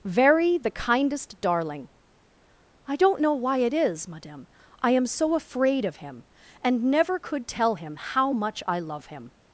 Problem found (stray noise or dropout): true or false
false